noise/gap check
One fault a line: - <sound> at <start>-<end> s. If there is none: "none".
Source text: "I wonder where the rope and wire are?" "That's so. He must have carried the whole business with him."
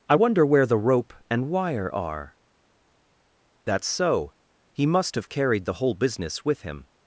none